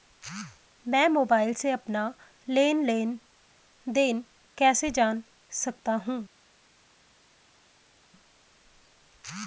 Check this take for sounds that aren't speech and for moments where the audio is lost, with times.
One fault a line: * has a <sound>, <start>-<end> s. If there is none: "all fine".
all fine